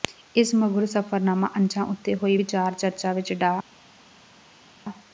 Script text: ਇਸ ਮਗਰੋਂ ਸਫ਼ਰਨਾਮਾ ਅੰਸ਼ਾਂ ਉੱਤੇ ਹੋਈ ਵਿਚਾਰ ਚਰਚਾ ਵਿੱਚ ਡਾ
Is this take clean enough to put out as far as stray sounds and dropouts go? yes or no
yes